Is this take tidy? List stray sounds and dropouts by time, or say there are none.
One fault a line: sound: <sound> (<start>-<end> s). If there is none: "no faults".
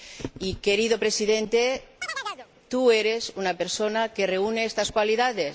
sound: chirp (2.0-2.5 s)